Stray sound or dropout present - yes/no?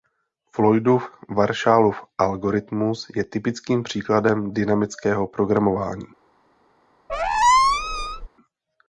yes